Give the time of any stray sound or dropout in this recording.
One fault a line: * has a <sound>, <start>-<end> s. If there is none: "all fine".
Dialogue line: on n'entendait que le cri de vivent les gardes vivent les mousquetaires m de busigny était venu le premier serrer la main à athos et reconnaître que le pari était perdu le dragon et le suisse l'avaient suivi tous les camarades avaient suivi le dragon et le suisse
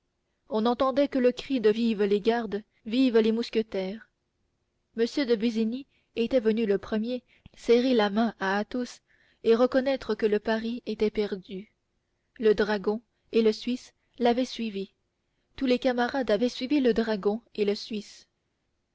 all fine